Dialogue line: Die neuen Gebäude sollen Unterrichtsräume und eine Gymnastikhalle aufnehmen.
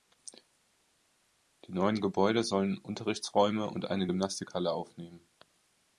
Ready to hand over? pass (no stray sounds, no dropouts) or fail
pass